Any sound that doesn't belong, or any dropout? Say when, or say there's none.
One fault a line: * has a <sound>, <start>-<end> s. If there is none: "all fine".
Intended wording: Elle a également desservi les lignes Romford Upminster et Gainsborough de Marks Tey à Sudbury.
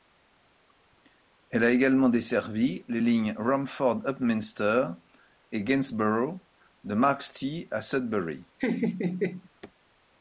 * has a laugh, 8.6-9.5 s